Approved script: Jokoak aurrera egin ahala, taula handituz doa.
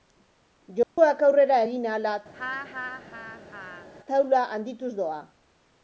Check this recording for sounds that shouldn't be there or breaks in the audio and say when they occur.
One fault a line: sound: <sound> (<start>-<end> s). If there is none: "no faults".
sound: dropout (0.8-1.0 s)
sound: laugh (2.3-3.9 s)